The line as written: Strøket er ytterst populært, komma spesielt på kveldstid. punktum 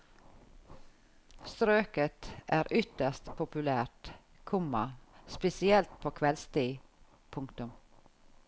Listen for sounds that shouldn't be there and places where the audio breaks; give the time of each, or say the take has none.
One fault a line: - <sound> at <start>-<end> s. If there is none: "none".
none